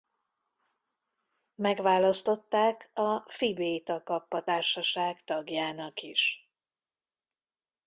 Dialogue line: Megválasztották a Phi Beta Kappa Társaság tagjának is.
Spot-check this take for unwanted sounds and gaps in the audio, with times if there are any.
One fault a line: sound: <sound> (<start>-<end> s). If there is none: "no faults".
no faults